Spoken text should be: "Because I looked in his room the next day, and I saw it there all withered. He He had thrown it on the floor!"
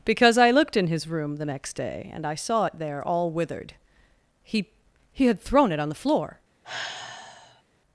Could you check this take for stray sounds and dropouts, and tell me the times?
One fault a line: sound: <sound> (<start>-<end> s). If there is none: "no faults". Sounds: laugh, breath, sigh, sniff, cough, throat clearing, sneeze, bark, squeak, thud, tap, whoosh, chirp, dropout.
sound: sigh (6.6-7.6 s)